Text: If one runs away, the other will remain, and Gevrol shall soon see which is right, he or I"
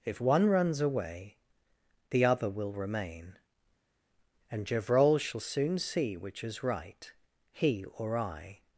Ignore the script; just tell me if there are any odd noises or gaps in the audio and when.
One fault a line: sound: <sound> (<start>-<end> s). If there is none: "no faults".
no faults